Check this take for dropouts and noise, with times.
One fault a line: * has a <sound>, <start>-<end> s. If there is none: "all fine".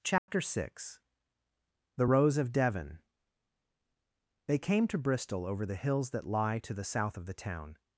* has a dropout, 0.2-0.3 s